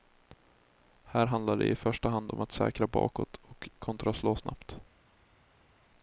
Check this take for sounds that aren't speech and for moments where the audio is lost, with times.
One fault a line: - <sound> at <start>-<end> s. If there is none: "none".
none